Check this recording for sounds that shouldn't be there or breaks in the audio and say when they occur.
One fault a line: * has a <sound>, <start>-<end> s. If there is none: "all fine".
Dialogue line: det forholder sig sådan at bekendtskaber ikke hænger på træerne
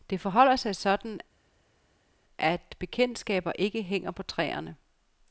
all fine